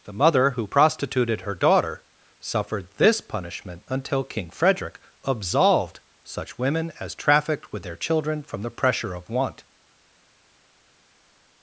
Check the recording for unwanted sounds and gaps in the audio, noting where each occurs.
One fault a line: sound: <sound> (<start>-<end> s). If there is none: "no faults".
no faults